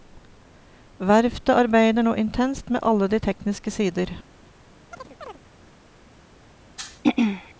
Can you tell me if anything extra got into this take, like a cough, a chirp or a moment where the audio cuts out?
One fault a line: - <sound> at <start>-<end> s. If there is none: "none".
- chirp at 4.9-5.4 s
- throat clearing at 6.8-7.5 s